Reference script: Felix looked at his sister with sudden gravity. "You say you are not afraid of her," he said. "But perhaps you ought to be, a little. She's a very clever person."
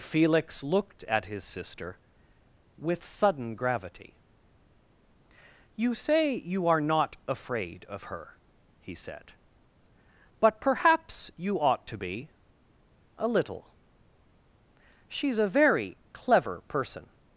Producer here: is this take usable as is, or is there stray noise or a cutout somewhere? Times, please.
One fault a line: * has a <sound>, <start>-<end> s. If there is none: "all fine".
all fine